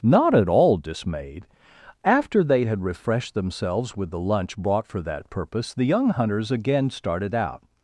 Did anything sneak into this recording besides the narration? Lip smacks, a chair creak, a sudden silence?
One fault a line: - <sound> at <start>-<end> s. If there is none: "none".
none